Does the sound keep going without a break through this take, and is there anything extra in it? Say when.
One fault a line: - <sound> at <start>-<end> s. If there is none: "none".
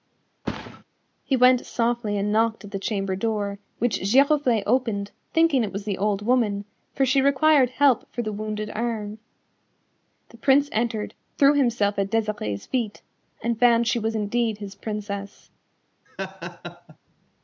- thud at 0.4-0.8 s
- laugh at 16.1-17.0 s